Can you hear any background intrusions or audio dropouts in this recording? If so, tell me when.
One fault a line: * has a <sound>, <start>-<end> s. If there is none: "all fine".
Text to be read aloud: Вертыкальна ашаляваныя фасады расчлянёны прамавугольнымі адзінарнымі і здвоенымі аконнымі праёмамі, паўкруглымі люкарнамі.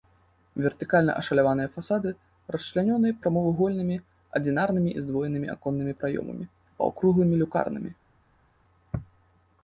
all fine